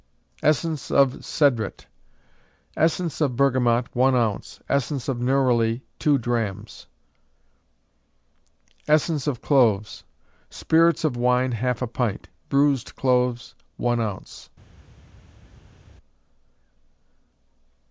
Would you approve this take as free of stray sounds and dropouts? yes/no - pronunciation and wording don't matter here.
yes